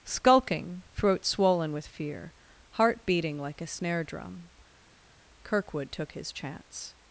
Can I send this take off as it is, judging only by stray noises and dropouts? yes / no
yes